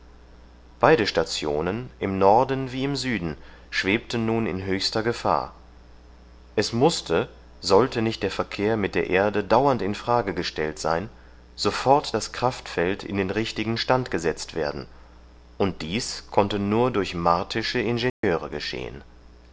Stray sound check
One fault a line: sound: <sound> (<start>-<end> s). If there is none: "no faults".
sound: dropout (18.1-18.2 s)